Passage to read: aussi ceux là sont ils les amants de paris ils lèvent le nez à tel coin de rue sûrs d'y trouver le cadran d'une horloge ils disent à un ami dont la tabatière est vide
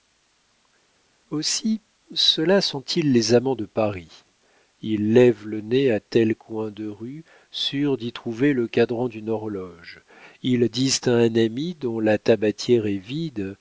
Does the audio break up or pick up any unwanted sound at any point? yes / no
no